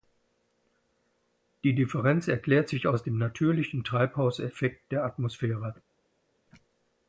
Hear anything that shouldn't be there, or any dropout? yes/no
no